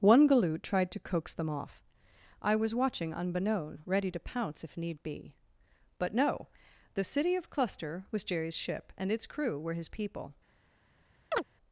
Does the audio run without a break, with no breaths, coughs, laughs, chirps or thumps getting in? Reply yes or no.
no